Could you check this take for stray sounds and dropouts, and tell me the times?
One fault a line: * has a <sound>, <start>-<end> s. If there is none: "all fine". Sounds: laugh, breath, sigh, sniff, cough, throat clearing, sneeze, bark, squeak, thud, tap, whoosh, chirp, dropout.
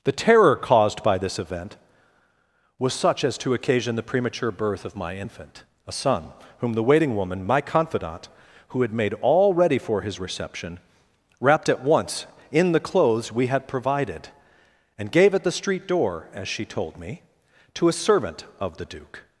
all fine